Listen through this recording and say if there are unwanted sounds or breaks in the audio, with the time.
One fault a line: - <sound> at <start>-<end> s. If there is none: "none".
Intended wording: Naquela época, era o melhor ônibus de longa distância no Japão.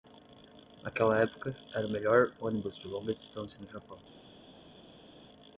none